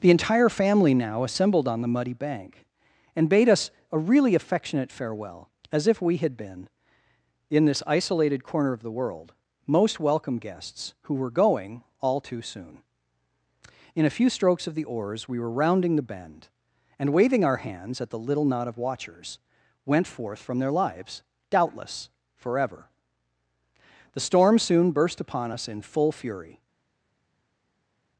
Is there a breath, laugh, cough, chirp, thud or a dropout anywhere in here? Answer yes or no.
no